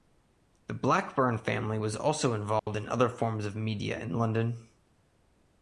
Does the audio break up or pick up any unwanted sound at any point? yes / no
yes